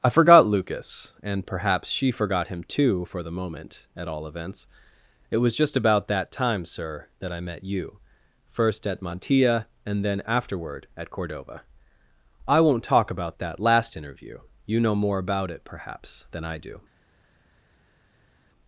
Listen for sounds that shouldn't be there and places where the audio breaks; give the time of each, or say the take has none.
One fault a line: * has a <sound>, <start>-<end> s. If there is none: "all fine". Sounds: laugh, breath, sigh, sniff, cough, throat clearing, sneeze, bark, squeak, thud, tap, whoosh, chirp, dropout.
all fine